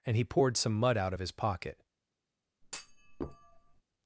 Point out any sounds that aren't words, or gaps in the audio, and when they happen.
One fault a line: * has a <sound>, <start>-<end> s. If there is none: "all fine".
* has a thud, 2.6-3.8 s